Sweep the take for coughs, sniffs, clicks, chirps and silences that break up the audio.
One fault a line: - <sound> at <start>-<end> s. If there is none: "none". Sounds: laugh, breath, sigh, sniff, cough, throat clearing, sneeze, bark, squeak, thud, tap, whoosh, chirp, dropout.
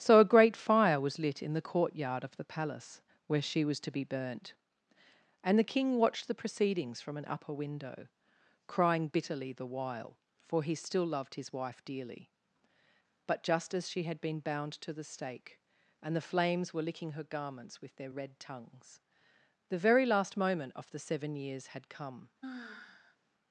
- sigh at 22.4-23.2 s